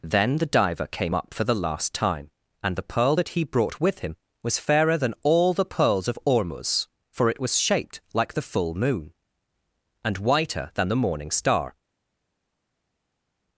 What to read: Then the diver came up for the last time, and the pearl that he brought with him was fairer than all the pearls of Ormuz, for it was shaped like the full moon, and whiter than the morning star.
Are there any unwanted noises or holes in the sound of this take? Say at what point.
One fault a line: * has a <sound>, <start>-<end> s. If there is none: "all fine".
all fine